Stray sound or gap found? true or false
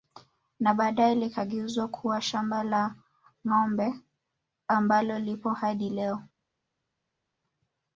false